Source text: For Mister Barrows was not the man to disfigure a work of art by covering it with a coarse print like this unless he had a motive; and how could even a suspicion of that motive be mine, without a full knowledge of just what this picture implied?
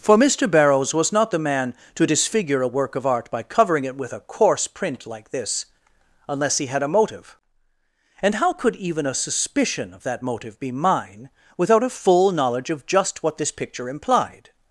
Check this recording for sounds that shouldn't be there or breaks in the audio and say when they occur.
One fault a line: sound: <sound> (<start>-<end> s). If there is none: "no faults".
no faults